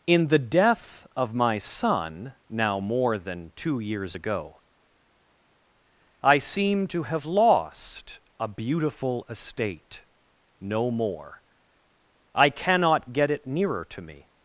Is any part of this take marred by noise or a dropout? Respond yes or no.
no